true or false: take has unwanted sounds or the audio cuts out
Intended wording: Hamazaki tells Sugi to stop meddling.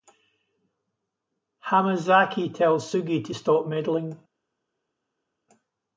false